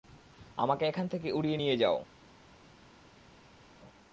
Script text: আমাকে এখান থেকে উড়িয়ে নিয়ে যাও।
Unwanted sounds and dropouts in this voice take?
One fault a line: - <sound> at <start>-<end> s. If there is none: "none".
none